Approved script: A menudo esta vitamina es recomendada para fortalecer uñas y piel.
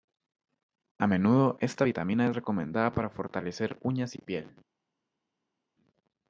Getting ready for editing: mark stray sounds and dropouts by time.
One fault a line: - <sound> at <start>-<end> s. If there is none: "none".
none